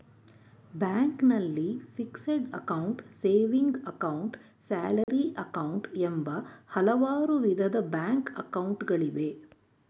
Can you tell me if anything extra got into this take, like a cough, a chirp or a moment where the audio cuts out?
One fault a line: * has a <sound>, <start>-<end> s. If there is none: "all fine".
* has a dropout, 5.0-5.1 s